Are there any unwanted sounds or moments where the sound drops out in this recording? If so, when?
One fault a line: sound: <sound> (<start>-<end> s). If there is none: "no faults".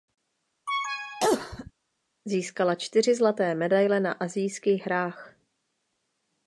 sound: cough (0.7-1.7 s)